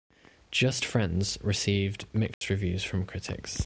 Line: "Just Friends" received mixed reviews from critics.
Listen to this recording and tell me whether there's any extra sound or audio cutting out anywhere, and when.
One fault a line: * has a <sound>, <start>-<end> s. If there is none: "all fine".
* has a dropout, 2.3-2.4 s